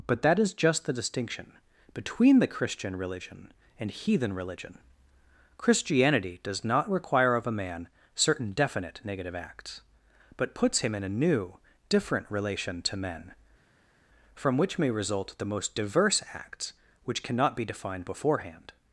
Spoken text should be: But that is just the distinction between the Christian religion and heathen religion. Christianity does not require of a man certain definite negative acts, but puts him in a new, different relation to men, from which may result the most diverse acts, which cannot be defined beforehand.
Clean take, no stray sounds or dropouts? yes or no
yes